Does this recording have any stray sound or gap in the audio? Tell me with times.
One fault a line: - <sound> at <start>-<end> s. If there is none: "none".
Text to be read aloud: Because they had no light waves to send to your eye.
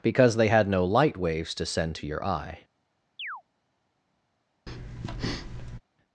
- chirp at 3.2-3.4 s
- breath at 4.7-5.8 s